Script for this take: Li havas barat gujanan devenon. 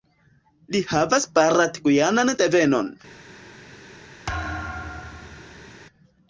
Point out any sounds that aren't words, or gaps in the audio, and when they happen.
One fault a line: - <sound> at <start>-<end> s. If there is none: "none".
- thud at 4.3-5.8 s